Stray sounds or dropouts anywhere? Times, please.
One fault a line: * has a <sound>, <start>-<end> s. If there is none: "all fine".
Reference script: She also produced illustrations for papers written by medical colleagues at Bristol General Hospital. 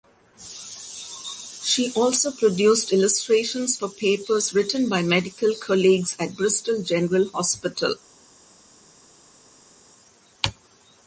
all fine